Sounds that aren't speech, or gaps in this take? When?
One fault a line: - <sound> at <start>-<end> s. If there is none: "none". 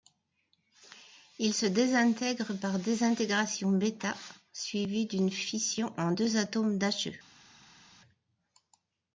none